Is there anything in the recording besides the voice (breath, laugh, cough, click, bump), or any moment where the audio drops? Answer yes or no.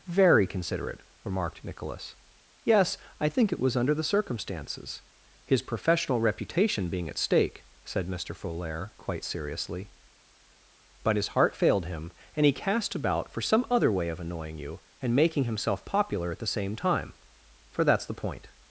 no